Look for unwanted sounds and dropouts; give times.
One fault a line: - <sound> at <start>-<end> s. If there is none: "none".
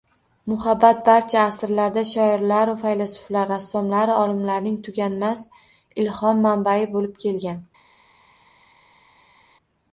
none